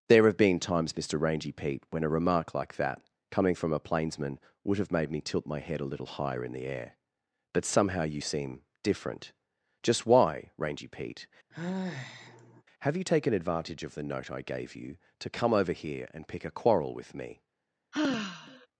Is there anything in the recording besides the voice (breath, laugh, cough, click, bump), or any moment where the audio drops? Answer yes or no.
yes